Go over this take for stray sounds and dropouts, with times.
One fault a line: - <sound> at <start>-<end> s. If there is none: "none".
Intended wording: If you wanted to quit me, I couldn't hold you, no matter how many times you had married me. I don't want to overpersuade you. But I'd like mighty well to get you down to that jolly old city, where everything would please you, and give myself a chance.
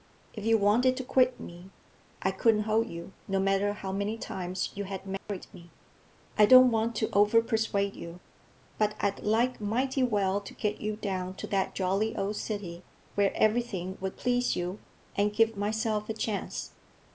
- dropout at 5.2-5.3 s